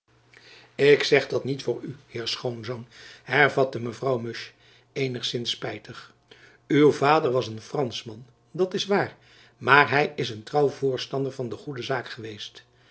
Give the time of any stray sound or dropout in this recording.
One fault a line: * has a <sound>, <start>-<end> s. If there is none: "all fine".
all fine